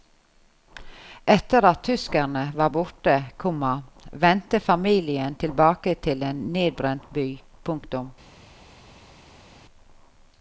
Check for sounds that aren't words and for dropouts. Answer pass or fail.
pass